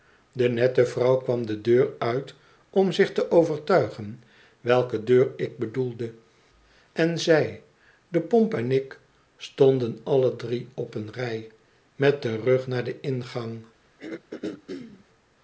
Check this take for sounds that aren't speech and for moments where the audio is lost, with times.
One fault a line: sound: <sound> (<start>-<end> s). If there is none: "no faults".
sound: throat clearing (14.0-15.0 s)